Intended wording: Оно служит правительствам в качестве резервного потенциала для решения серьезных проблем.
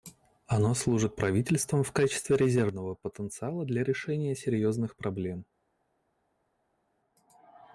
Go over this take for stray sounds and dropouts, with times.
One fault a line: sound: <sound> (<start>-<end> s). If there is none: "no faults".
no faults